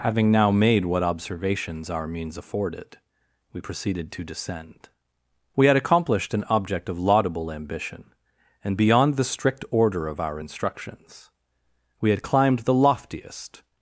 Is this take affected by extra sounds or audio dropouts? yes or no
no